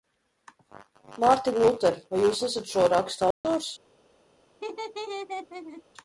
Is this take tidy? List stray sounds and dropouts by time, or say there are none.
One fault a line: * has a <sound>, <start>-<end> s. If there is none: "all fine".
* has a dropout, 3.3-3.4 s
* has a laugh, 4.6-5.8 s